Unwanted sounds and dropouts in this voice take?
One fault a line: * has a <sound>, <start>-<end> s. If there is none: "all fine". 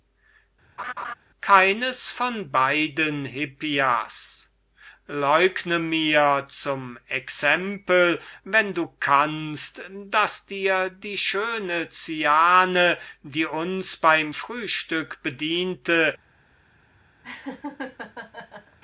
* has a laugh, 0.8-1.1 s
* has a laugh, 17.2-18.8 s